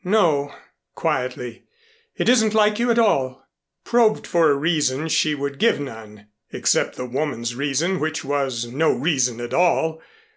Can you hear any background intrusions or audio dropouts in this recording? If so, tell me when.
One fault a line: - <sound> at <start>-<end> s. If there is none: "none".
none